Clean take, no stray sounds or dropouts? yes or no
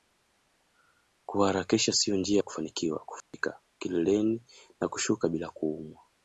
no